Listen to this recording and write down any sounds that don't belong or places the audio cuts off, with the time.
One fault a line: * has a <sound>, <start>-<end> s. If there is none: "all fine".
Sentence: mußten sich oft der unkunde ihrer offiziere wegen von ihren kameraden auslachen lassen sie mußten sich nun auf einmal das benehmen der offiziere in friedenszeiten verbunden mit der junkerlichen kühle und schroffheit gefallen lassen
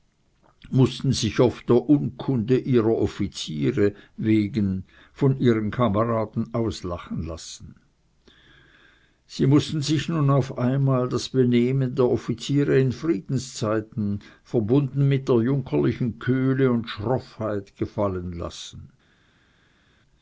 all fine